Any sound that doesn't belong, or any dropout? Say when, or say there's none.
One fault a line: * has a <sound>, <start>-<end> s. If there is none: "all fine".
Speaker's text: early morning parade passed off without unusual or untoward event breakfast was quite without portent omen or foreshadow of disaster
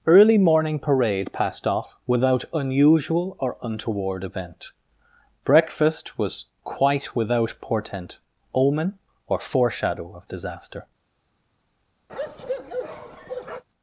* has a bark, 12.1-13.6 s